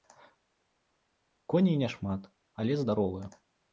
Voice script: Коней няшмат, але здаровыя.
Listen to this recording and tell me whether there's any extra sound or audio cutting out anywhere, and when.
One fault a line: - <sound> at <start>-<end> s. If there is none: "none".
none